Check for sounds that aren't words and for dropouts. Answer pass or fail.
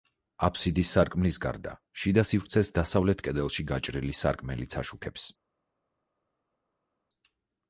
pass